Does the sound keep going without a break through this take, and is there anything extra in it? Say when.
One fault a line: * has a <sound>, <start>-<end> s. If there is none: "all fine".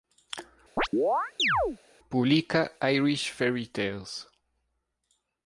* has a chirp, 0.8-1.8 s